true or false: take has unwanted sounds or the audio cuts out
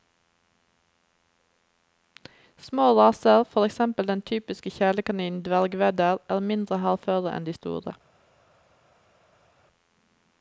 false